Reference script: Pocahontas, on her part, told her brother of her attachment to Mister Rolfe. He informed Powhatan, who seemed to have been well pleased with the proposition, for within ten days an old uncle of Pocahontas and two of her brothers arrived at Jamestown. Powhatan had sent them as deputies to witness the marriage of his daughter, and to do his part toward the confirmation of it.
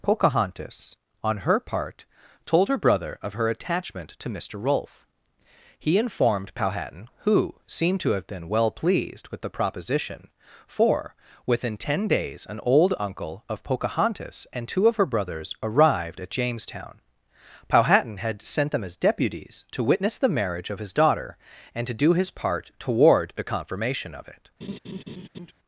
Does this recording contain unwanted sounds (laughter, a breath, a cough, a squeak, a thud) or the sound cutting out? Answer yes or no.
yes